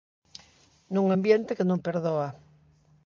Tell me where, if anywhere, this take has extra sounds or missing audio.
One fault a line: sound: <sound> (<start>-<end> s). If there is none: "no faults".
no faults